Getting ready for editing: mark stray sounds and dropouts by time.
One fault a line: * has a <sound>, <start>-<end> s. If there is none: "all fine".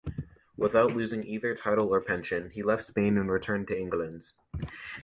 all fine